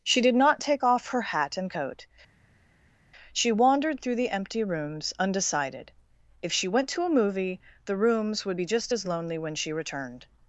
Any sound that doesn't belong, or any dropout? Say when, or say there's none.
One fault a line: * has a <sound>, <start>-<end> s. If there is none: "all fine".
all fine